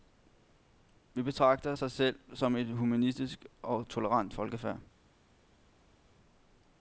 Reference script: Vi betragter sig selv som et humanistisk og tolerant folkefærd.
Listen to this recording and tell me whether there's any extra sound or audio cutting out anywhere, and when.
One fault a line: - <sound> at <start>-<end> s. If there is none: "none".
none